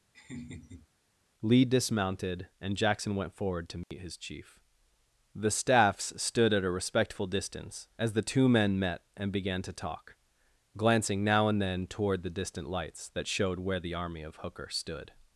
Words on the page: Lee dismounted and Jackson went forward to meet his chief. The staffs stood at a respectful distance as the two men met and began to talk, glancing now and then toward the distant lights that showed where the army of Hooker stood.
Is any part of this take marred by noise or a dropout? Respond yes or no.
yes